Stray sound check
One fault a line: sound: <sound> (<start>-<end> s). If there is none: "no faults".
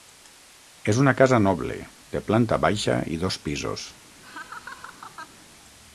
sound: laugh (4.2-5.5 s)